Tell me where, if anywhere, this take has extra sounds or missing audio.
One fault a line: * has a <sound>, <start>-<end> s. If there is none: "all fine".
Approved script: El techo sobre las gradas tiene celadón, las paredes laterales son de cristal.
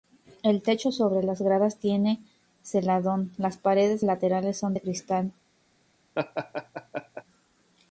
* has a laugh, 6.1-7.2 s